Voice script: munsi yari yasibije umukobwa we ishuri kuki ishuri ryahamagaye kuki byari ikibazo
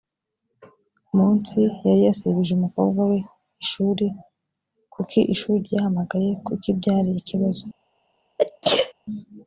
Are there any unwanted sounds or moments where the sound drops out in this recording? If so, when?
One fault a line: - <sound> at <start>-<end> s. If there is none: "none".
- sneeze at 8.4-8.9 s